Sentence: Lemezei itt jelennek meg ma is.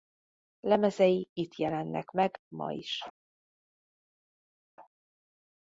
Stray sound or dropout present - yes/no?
no